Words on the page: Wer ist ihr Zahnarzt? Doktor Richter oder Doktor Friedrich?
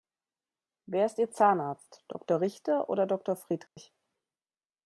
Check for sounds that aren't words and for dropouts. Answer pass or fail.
fail